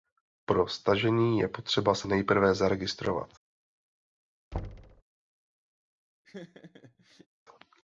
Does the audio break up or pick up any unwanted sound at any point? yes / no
yes